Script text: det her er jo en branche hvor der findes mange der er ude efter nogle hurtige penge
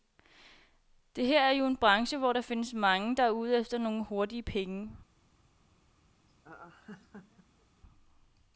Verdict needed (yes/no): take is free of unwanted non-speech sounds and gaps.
no